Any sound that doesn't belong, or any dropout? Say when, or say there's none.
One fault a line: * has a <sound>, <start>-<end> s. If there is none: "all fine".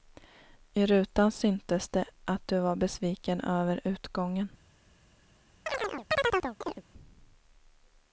* has a chirp, 5.7-6.8 s